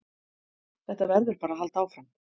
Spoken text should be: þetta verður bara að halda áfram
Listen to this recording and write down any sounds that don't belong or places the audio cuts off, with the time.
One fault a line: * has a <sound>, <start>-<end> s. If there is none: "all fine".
all fine